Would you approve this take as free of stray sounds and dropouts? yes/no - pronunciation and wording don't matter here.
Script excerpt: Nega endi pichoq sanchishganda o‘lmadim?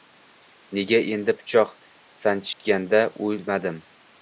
no